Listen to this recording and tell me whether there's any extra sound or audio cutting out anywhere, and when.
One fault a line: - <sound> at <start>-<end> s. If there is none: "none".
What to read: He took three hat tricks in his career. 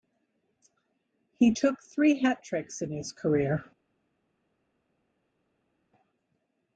none